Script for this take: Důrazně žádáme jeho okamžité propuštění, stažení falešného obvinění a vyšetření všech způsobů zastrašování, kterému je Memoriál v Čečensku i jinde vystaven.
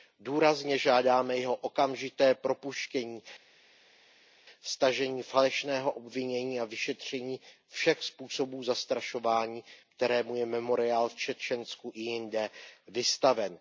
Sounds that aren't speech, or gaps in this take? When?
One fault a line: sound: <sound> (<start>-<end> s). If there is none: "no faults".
no faults